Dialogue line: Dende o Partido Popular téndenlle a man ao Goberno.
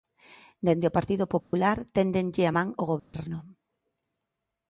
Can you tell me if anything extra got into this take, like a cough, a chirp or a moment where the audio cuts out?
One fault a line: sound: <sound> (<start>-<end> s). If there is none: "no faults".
sound: dropout (1.4-1.5 s)
sound: dropout (3.0-3.1 s)